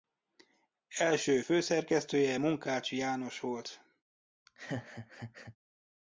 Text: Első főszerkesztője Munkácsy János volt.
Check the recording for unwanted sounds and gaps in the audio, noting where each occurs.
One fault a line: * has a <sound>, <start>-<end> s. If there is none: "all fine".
* has a laugh, 4.5-5.6 s